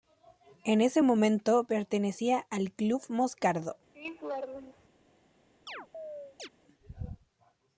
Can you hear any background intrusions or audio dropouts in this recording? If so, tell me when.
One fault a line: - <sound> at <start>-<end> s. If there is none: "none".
- laugh at 3.9-4.9 s
- chirp at 5.7-6.5 s